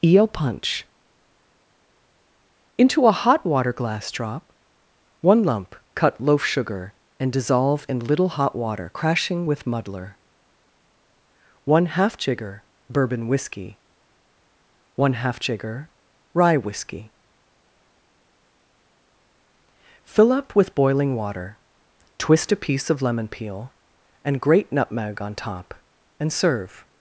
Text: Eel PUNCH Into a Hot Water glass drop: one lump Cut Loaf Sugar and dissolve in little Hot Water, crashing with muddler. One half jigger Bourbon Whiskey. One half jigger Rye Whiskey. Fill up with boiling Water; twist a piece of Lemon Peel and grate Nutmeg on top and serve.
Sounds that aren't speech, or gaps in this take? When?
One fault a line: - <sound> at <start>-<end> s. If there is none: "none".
none